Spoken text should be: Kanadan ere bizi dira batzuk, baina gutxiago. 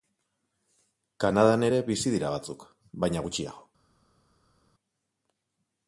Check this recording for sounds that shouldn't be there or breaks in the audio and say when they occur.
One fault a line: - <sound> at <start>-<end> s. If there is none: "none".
none